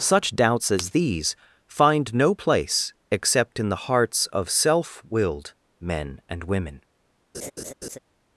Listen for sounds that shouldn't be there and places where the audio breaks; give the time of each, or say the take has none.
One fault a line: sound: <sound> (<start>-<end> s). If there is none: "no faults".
sound: laugh (7.3-8.0 s)